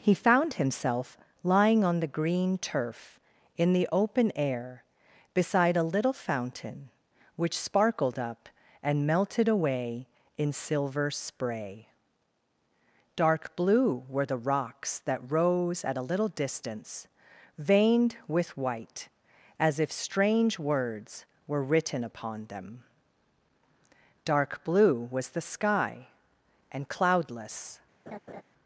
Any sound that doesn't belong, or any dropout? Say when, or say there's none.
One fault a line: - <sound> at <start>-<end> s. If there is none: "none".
- laugh at 28.1-28.4 s